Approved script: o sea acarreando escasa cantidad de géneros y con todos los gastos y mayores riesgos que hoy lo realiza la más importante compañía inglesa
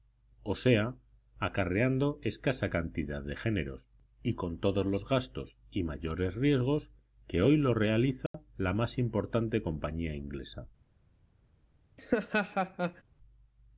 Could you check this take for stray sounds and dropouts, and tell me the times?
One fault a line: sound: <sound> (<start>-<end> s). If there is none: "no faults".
sound: dropout (8.3-8.3 s)
sound: laugh (12.0-13.0 s)